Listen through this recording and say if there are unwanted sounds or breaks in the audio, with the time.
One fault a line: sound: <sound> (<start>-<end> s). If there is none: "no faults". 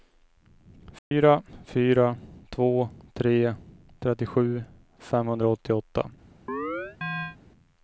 sound: dropout (1.0-1.1 s)
sound: chirp (6.5-7.4 s)